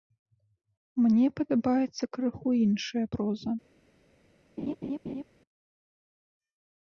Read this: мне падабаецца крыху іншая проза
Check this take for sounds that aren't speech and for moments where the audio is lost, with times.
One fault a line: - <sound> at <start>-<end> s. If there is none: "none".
- laugh at 4.6-5.2 s